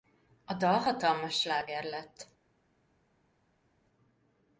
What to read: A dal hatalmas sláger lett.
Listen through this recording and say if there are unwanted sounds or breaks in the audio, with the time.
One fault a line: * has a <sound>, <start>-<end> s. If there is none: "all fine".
all fine